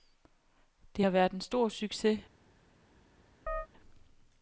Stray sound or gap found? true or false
true